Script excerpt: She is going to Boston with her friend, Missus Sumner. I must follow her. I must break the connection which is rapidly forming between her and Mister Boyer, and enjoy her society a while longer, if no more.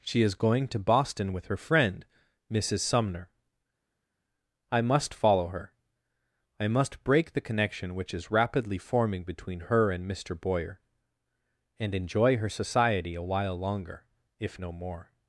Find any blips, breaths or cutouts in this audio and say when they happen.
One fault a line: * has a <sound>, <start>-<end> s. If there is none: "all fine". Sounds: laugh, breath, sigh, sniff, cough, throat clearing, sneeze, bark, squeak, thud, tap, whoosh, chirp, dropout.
all fine